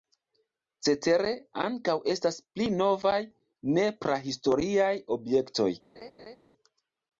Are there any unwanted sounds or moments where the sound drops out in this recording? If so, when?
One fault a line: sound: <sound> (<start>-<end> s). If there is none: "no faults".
sound: laugh (6.0-6.4 s)